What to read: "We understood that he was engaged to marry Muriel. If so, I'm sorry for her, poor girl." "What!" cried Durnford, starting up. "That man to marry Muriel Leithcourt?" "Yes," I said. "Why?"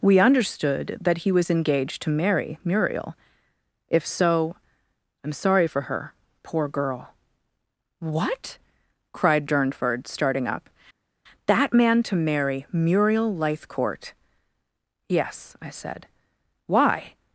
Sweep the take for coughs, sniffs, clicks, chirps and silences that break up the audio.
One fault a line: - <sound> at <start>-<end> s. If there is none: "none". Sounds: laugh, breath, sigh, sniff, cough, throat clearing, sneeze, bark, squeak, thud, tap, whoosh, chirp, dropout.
none